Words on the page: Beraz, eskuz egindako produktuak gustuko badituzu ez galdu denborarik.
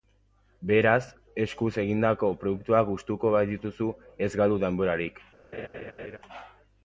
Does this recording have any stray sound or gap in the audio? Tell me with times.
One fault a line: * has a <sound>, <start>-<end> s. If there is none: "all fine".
* has a laugh, 5.5-6.2 s